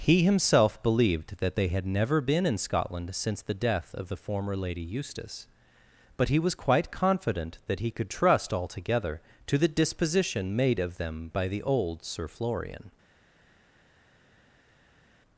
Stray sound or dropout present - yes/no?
no